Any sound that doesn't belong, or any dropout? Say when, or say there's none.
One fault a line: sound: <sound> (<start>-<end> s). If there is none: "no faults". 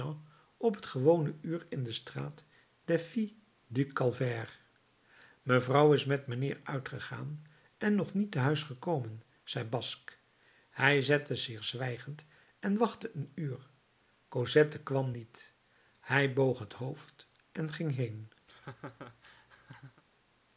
sound: laugh (18.5-20.0 s)